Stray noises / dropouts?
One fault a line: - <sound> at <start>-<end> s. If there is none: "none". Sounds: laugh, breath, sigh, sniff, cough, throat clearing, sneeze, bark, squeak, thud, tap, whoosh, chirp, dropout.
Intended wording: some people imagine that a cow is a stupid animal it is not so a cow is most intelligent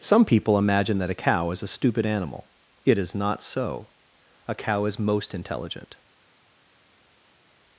none